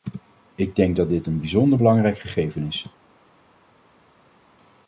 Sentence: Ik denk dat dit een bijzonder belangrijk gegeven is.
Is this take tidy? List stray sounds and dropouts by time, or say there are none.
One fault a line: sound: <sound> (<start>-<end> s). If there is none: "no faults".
no faults